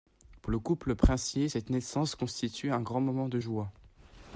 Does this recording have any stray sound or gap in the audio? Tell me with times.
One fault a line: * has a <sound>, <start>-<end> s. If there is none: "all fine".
all fine